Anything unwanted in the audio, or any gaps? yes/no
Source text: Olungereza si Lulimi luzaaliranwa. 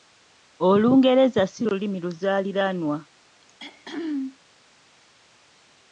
yes